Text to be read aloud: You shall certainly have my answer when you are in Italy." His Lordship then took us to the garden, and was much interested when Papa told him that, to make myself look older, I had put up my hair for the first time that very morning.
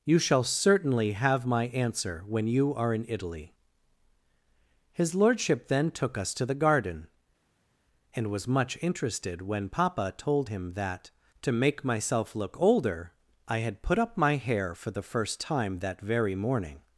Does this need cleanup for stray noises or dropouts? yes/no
no